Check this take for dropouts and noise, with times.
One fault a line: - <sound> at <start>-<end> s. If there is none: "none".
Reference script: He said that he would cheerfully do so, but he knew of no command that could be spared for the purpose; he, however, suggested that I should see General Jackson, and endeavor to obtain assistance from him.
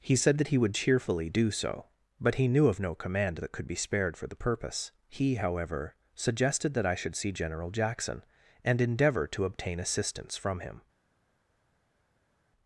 none